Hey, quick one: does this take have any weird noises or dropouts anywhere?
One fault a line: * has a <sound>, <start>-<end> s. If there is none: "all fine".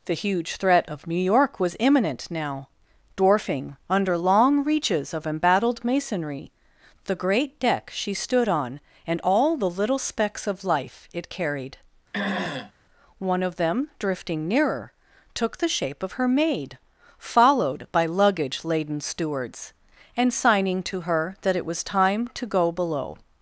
* has a throat clearing, 12.1-12.7 s